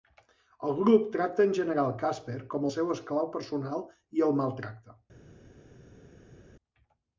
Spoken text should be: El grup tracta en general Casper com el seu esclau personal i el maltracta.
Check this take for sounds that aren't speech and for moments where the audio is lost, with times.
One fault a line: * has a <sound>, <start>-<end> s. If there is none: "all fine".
all fine